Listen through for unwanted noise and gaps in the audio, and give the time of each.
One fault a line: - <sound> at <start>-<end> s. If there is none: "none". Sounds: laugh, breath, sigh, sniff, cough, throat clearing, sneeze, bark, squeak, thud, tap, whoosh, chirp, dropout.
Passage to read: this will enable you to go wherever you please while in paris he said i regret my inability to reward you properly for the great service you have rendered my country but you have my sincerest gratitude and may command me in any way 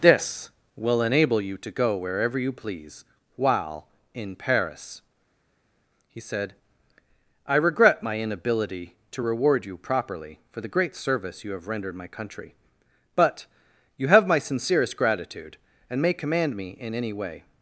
none